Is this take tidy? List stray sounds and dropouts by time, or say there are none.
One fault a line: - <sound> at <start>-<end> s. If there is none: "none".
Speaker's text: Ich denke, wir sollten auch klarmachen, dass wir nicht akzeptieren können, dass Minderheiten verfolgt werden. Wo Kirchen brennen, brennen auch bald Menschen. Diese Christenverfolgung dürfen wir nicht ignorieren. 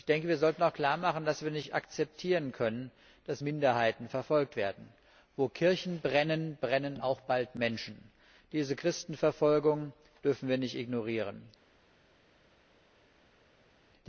none